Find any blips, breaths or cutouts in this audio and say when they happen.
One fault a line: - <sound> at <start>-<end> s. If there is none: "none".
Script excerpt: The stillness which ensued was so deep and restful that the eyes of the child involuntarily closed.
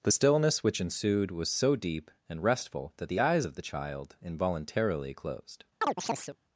- chirp at 5.8-6.4 s